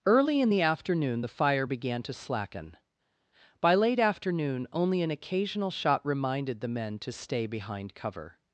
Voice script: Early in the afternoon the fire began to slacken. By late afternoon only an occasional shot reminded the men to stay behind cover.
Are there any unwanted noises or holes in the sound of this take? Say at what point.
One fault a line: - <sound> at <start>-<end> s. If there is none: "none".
none